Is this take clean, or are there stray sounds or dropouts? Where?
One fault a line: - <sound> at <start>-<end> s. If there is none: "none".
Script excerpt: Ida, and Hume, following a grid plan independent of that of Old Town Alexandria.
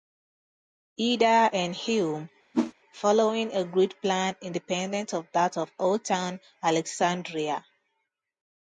- whoosh at 2.5-2.7 s